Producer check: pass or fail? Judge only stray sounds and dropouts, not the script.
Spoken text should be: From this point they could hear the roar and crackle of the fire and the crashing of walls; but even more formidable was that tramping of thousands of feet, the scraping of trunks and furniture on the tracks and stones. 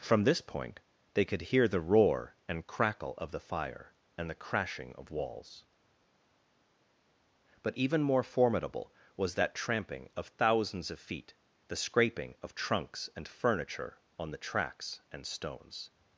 pass